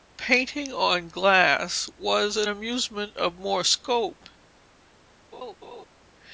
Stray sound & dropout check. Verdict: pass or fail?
fail